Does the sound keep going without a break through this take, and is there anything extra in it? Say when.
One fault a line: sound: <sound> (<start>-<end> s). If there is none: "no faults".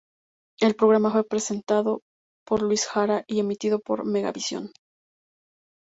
no faults